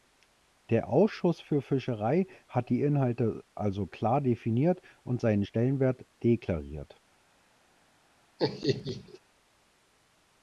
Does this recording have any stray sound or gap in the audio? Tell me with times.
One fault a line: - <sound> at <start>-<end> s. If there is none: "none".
- laugh at 8.4-9.2 s